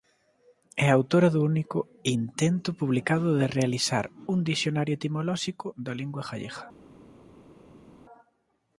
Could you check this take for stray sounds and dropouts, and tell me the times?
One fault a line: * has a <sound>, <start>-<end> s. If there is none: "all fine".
all fine